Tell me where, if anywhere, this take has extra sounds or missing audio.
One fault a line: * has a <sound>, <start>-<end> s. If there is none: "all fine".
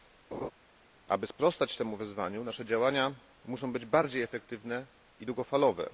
* has a laugh, 0.3-0.5 s